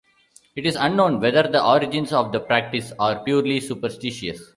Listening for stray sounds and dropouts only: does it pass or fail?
pass